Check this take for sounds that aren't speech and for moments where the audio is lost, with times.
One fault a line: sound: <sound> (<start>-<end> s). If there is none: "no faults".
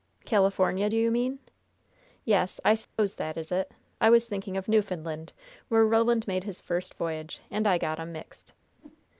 sound: dropout (2.8-3.0 s)
sound: whoosh (8.7-9.0 s)